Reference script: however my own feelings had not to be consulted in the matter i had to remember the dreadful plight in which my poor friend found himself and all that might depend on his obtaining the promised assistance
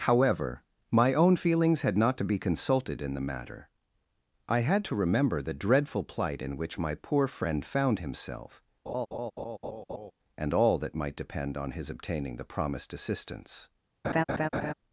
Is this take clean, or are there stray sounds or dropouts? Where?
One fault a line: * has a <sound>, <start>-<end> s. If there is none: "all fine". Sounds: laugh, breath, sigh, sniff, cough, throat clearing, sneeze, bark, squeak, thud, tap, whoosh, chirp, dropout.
* has a laugh, 8.9-10.1 s
* has a laugh, 14.0-14.7 s